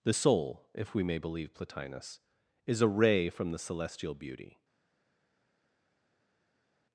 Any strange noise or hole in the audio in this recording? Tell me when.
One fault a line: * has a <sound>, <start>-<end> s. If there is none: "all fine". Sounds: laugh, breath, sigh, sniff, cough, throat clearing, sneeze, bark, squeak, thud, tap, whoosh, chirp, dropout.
all fine